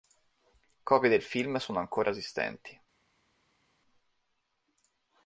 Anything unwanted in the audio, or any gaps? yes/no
no